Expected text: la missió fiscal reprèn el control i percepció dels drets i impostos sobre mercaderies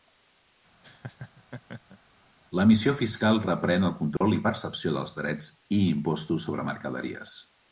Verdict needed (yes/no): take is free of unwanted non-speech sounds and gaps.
no